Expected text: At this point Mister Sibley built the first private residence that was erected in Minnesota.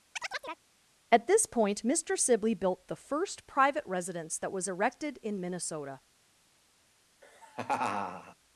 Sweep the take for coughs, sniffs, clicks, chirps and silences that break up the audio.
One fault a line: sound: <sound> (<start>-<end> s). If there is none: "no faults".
sound: chirp (0.2-0.6 s)
sound: laugh (7.2-8.4 s)